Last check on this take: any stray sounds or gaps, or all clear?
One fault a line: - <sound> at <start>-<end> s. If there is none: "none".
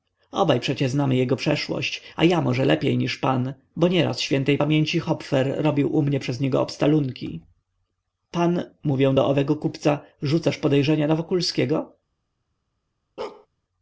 - bark at 13.2-13.5 s